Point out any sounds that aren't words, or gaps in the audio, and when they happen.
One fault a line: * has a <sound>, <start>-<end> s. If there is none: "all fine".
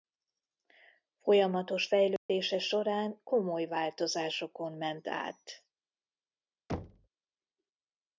* has a dropout, 2.2-2.3 s
* has a thud, 6.7-7.1 s